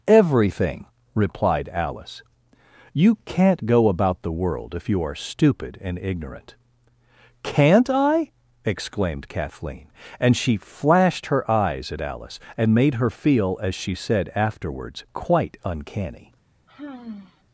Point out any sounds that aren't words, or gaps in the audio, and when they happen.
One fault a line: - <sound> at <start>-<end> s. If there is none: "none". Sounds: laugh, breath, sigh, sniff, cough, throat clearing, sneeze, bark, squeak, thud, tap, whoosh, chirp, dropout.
- sigh at 16.7-17.4 s